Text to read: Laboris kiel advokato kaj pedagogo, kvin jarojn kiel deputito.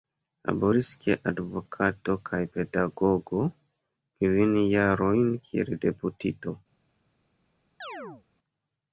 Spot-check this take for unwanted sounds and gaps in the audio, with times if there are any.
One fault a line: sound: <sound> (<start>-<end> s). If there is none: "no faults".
sound: chirp (7.8-8.2 s)